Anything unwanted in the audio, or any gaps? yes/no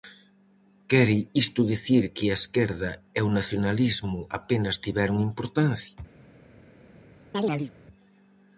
yes